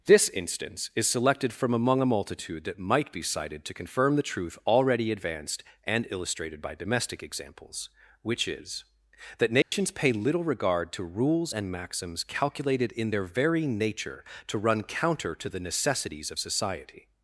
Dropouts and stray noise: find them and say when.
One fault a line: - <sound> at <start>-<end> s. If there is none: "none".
- dropout at 9.6-9.7 s